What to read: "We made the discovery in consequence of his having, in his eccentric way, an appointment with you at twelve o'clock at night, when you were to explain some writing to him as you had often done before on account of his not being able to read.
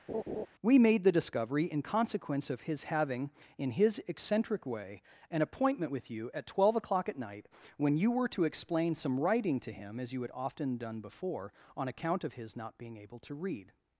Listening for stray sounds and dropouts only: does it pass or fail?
fail